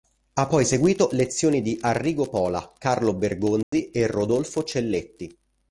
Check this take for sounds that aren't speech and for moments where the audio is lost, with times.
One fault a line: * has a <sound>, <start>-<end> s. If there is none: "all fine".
* has a dropout, 3.6-3.7 s